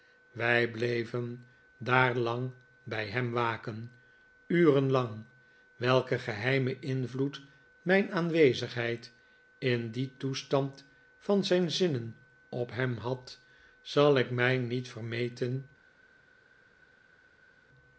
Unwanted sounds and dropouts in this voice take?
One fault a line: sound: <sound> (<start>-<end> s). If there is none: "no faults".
no faults